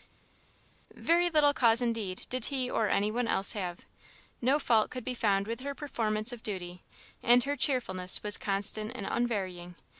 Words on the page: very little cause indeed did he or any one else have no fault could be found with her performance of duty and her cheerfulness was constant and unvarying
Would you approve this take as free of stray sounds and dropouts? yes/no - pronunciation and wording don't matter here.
yes